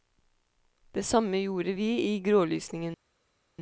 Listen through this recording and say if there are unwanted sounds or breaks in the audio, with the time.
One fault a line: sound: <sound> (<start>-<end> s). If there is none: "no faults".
no faults